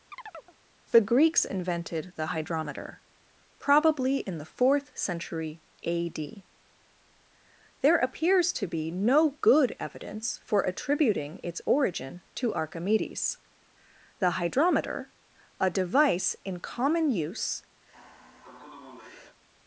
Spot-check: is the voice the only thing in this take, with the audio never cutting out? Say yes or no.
no